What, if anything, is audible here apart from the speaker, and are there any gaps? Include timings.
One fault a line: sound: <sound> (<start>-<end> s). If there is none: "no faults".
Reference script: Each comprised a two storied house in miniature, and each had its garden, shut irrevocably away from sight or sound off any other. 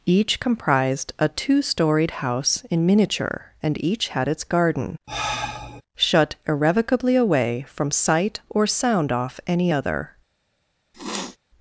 sound: sigh (5.1-5.8 s)
sound: sniff (10.9-11.4 s)